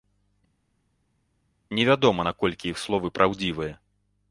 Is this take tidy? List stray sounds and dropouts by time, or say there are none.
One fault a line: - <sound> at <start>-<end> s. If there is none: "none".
none